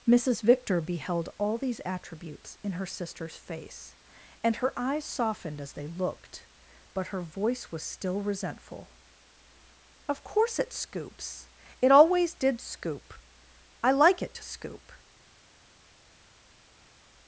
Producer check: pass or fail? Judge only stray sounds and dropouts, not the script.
pass